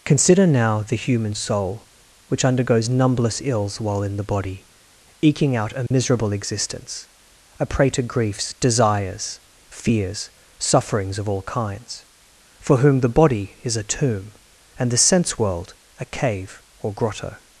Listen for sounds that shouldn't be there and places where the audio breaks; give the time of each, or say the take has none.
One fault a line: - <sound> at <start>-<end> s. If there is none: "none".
- dropout at 5.9-5.9 s